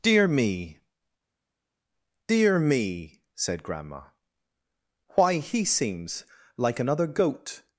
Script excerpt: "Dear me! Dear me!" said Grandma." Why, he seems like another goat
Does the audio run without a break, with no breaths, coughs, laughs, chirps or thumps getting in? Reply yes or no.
yes